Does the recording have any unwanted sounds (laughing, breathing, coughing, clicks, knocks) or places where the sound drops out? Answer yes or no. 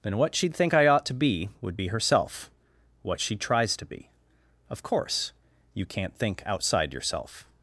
no